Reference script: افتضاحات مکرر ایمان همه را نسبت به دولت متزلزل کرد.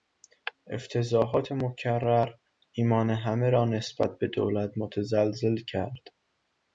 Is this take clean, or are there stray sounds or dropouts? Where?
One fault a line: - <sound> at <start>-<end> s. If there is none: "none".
none